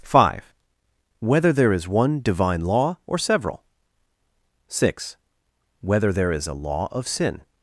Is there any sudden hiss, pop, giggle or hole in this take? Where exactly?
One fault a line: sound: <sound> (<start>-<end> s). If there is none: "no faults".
no faults